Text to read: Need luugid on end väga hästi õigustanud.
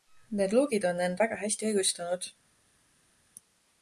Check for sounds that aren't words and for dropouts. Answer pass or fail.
pass